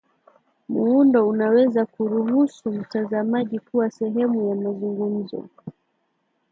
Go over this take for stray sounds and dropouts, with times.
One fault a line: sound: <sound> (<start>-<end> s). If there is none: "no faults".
no faults